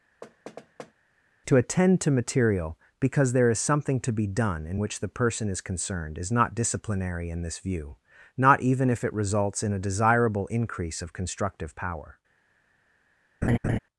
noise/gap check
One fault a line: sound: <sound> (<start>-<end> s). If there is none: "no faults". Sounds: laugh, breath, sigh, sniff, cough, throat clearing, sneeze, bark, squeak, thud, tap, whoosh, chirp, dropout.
sound: thud (0.2-0.9 s)
sound: laugh (13.4-13.8 s)